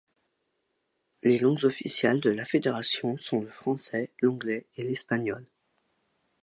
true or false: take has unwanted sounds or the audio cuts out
false